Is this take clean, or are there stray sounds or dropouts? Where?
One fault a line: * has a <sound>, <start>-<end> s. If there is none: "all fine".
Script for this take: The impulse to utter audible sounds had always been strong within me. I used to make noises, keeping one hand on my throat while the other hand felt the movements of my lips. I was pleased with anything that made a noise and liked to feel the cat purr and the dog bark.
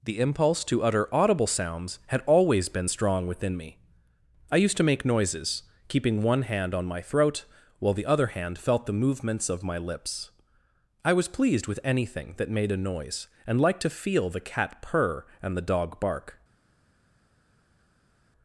all fine